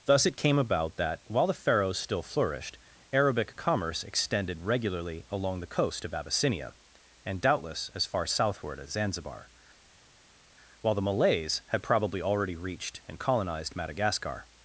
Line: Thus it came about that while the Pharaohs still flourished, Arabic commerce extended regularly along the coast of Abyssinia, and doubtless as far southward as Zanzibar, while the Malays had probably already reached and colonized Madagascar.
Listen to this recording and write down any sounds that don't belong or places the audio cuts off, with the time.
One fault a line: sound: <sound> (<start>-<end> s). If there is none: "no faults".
no faults